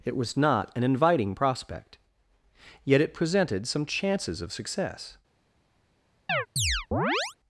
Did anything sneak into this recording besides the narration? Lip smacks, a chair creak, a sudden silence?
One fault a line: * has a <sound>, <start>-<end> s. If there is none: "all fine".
* has a chirp, 6.3-7.4 s